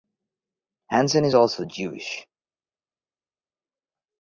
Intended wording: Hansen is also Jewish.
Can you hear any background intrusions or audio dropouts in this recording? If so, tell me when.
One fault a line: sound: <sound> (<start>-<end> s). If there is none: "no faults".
no faults